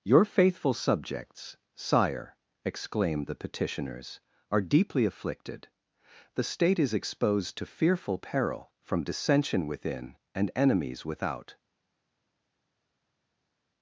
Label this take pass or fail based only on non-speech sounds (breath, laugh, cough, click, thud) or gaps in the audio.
pass